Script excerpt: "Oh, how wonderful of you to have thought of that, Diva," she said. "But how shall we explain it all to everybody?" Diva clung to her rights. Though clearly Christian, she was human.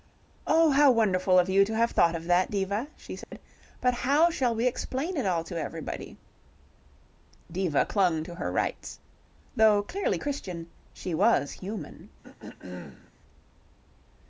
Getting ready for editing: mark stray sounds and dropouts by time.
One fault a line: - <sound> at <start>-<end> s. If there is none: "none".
- dropout at 3.2-3.3 s
- throat clearing at 12.2-13.1 s